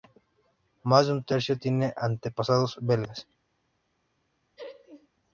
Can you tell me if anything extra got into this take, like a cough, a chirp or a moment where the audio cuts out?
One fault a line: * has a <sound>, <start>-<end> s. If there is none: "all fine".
* has a laugh, 4.6-5.1 s